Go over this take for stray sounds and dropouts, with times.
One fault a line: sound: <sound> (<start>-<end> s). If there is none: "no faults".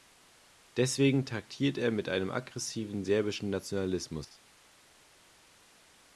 no faults